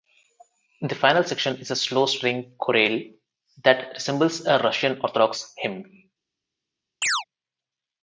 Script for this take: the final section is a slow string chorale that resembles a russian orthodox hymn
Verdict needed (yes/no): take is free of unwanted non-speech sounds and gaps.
no